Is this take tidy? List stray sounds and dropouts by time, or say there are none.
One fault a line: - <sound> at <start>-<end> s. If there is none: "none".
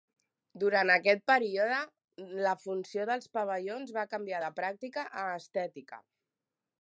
none